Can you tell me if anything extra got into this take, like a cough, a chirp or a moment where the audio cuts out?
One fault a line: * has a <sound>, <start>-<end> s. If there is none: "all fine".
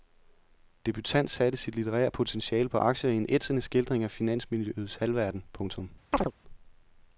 * has a chirp, 6.1-6.3 s